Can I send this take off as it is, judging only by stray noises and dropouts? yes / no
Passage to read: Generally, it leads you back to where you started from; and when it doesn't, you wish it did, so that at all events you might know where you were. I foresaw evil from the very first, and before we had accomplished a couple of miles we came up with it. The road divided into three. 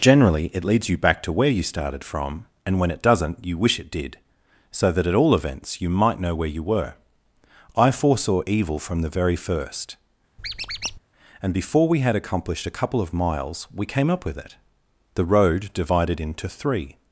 no